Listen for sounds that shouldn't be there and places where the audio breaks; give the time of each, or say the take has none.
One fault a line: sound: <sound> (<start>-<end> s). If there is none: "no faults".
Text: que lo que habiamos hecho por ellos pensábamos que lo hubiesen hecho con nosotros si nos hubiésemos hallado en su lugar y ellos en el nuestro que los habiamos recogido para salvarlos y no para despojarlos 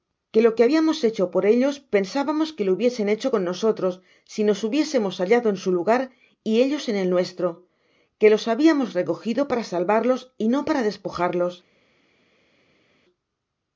no faults